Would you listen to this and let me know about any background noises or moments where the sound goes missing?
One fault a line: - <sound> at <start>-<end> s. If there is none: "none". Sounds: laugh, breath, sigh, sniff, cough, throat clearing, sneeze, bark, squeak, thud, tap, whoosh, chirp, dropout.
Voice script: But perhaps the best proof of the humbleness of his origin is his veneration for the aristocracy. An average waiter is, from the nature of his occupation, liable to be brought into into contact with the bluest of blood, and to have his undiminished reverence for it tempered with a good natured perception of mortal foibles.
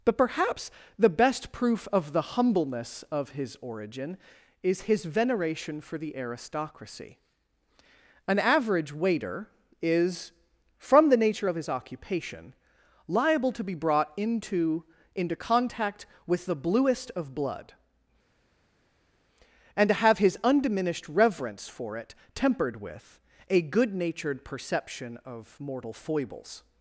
none